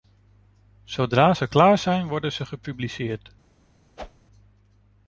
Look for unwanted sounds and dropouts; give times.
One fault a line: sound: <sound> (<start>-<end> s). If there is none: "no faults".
sound: whoosh (4.0-4.3 s)